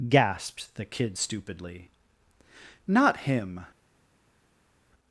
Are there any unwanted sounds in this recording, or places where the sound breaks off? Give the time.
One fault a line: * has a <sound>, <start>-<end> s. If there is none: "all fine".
all fine